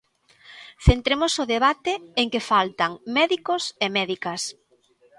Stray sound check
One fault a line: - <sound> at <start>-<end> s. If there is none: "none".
none